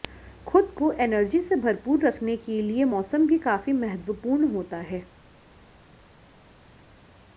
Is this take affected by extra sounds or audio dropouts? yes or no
no